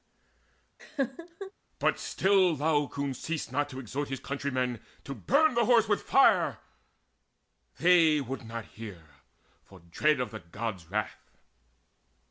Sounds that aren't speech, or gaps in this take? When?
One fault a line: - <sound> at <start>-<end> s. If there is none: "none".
- laugh at 0.8-1.5 s